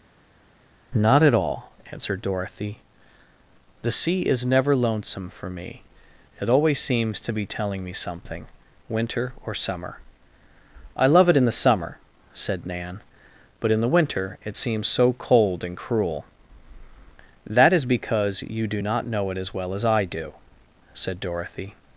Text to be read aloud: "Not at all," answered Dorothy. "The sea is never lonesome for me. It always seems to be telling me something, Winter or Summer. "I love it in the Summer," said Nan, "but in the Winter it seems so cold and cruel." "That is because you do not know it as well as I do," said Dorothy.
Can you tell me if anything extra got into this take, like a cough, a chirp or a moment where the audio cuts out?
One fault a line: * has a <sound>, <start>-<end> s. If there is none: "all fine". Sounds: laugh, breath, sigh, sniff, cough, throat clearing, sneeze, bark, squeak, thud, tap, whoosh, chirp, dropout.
all fine